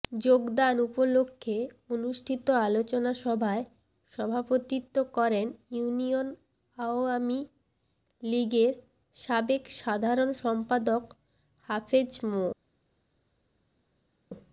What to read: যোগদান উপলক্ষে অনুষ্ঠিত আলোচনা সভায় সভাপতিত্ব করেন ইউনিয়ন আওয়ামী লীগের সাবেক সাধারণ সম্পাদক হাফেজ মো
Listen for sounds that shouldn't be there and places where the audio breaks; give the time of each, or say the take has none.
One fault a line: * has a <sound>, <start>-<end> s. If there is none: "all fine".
all fine